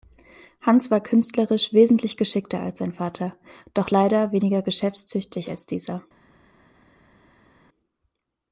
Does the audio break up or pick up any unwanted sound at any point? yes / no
no